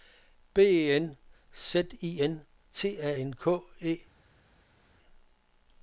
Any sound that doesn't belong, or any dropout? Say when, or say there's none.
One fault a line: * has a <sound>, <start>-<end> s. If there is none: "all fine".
all fine